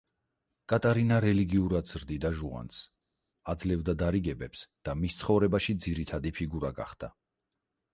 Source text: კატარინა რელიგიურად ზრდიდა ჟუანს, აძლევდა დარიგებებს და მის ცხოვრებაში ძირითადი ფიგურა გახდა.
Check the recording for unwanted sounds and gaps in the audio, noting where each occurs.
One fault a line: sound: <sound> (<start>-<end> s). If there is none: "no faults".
no faults